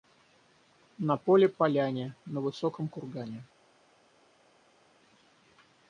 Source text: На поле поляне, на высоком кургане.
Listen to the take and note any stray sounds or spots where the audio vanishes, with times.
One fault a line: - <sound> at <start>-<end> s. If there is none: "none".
none